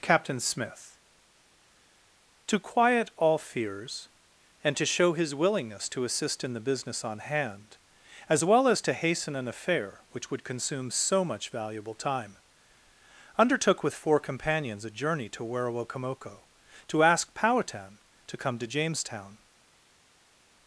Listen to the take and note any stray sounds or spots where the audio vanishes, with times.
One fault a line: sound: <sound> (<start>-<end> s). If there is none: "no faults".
no faults